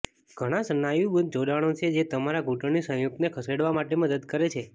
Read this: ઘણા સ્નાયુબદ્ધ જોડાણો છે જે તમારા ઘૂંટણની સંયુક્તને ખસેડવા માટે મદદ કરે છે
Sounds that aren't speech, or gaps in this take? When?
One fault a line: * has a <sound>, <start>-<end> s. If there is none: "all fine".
all fine